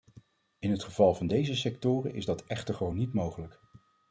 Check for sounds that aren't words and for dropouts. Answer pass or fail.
pass